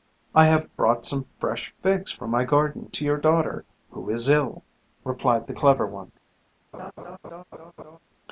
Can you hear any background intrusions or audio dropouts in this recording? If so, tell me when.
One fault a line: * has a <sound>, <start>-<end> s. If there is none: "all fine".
* has a laugh, 6.7-8.0 s